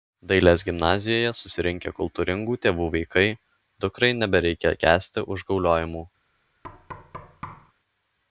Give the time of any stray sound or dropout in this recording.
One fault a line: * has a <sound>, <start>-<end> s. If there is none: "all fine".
* has a thud, 6.6-7.7 s